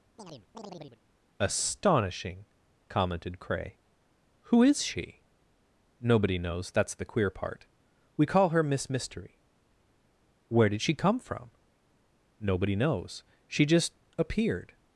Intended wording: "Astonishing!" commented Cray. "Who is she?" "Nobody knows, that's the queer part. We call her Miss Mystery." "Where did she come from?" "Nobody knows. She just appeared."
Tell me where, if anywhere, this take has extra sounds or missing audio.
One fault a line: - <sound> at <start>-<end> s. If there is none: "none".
- chirp at 0.2-1.0 s